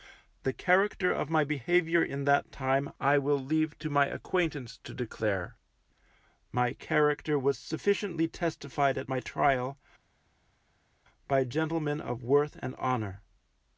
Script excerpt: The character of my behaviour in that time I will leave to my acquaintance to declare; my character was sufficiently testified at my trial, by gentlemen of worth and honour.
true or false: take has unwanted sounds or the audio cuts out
false